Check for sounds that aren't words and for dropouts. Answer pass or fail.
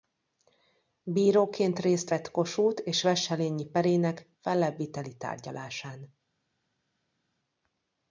pass